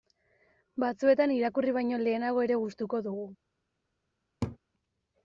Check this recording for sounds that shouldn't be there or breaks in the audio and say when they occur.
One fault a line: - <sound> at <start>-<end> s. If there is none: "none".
- laugh at 4.4-4.6 s